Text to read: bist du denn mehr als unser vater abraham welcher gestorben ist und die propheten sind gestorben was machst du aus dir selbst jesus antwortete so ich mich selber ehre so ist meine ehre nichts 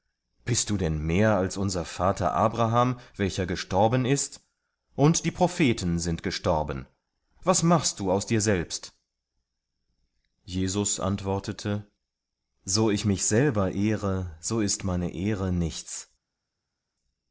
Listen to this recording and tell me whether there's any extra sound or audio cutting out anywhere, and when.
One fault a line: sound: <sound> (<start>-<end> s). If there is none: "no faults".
no faults